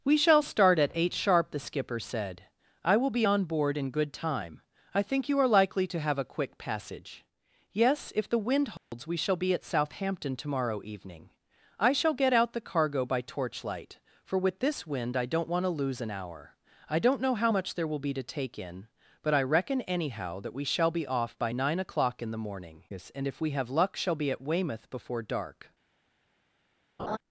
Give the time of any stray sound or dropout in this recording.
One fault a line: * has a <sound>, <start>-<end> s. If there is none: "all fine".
* has a dropout, 8.8-8.9 s
* has a laugh, 27.0-27.2 s